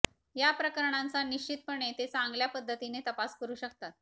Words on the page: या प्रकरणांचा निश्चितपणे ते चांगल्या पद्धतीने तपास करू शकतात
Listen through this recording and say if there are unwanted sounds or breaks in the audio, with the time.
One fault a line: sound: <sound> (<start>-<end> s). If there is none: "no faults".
no faults